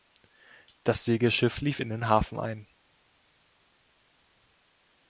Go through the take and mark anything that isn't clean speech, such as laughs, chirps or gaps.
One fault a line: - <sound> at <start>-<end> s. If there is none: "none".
none